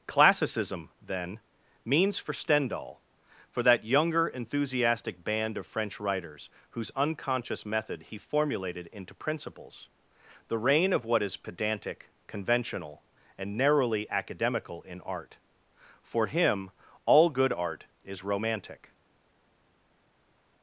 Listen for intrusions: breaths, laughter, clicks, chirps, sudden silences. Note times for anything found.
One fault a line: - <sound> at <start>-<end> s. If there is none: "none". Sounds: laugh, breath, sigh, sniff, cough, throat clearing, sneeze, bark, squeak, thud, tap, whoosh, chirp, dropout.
none